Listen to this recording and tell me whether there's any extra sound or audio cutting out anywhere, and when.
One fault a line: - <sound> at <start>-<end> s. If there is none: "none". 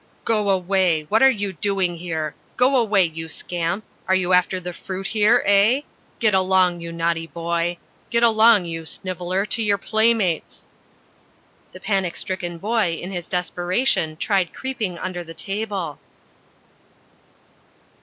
none